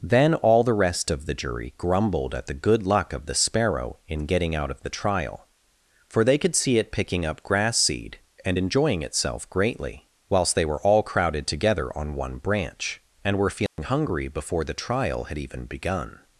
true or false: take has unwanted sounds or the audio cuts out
true